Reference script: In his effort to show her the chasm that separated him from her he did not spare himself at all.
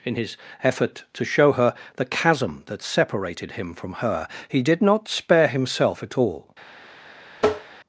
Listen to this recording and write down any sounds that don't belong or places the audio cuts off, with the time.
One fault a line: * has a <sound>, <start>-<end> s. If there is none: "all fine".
* has a tap, 7.4-7.8 s